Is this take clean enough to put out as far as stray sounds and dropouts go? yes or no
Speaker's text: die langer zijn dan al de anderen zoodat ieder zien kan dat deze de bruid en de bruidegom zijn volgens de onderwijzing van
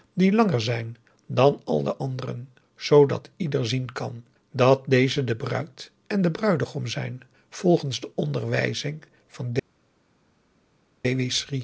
yes